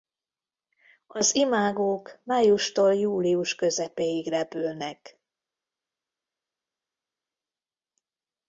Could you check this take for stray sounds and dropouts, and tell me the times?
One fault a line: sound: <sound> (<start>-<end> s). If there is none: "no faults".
no faults